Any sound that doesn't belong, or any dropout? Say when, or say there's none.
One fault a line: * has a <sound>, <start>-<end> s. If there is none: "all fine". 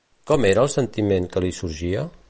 all fine